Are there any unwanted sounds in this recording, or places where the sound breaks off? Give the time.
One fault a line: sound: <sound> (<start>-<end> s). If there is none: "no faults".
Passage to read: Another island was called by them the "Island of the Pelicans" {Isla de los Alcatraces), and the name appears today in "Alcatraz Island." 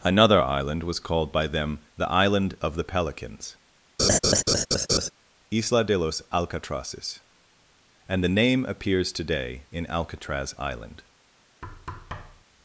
sound: laugh (4.0-5.1 s)
sound: thud (11.6-12.4 s)